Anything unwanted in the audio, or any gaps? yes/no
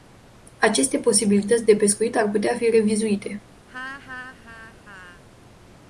yes